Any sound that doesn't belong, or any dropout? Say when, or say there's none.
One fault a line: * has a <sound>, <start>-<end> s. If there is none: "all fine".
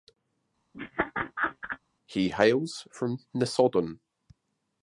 * has a laugh, 0.7-1.8 s